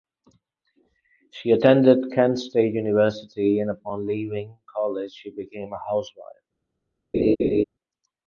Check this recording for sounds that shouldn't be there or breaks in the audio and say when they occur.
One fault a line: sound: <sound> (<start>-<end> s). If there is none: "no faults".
sound: laugh (7.1-7.6 s)